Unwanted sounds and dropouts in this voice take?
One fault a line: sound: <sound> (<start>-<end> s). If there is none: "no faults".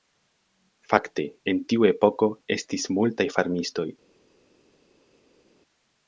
no faults